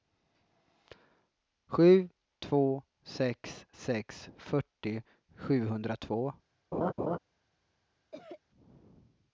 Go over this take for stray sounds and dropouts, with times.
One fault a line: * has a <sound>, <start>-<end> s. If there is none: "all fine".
* has a laugh, 6.7-7.2 s
* has a cough, 8.1-8.4 s